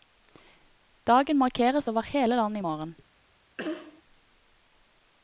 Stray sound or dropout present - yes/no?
yes